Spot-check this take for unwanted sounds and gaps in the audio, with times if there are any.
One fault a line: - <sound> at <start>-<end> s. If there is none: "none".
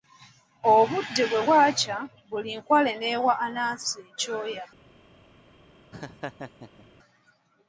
- laugh at 5.9-6.9 s